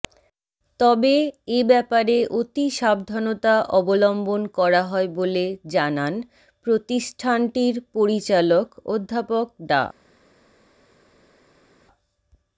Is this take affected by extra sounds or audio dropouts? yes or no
no